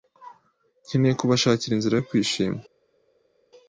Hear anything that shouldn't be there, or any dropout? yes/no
no